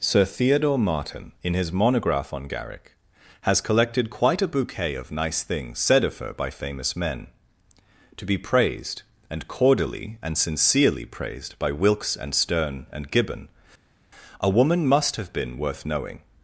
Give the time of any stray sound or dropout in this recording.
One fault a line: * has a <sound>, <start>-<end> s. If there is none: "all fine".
all fine